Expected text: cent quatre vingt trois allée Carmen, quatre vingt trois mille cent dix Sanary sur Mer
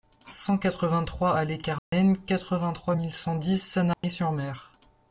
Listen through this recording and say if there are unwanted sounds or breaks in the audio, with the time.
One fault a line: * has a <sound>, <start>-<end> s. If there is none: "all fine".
* has a dropout, 1.8-1.9 s
* has a dropout, 3.9-4.0 s